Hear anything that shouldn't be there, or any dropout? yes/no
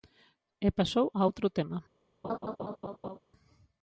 yes